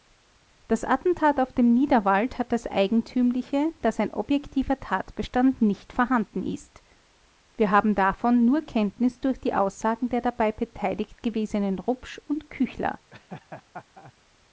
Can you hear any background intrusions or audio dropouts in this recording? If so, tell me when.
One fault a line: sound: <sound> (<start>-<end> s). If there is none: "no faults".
sound: laugh (13.1-14.1 s)